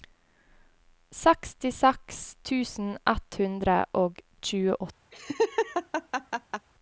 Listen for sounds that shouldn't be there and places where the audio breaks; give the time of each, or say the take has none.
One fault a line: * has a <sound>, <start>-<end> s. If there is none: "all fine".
* has a laugh, 5.1-6.7 s